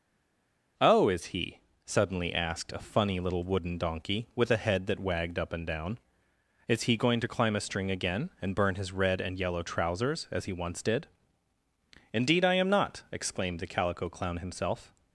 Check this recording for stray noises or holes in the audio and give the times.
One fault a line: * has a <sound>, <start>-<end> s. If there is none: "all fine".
all fine